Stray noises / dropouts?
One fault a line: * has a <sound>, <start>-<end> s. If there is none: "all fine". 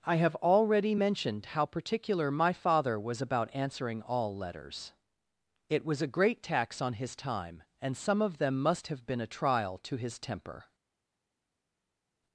all fine